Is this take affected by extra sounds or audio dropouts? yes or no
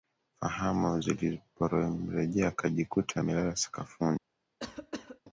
yes